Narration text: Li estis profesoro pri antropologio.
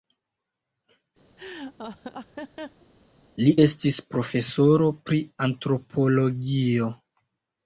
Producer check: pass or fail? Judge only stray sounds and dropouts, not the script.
fail